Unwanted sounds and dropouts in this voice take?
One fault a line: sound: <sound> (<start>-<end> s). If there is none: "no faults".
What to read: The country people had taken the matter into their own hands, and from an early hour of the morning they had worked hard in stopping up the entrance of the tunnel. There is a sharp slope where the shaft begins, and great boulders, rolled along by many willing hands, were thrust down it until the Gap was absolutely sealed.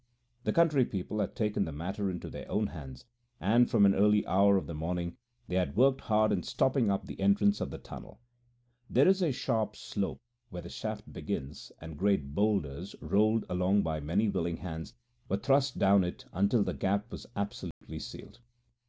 sound: dropout (17.7-17.8 s)